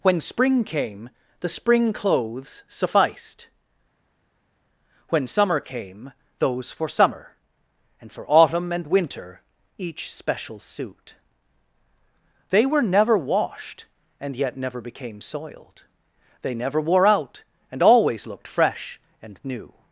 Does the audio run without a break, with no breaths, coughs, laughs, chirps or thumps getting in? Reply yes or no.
yes